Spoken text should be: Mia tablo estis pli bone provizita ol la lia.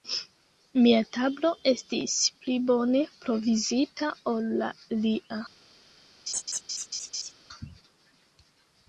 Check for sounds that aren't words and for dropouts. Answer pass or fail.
fail